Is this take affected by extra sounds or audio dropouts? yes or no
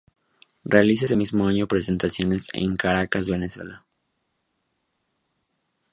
no